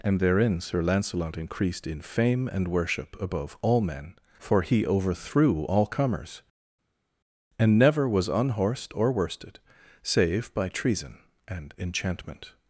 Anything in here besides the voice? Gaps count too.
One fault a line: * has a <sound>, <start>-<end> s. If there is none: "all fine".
all fine